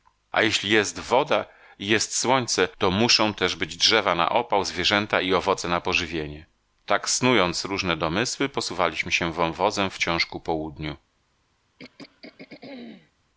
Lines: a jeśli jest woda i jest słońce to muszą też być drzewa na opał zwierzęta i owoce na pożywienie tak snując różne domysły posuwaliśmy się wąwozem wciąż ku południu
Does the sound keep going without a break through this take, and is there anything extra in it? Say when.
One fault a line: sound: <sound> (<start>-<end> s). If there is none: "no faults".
sound: throat clearing (11.8-13.1 s)